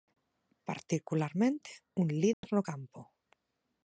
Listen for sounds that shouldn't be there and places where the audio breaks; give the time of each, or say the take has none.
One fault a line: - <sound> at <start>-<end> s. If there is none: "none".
- dropout at 2.3-2.4 s